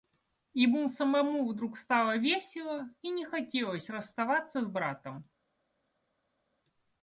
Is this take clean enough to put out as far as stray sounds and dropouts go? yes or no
yes